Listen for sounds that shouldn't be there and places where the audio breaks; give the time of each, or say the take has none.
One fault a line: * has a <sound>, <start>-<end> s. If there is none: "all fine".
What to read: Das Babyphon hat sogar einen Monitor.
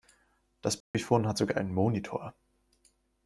* has a dropout, 0.8-0.9 s